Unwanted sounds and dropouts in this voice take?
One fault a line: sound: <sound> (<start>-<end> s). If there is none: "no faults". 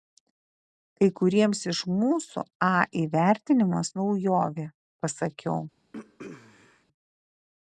sound: throat clearing (5.9-6.9 s)